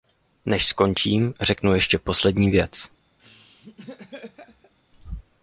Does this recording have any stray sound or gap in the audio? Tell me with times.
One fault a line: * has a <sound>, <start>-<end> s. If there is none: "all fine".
* has a laugh, 3.2-4.7 s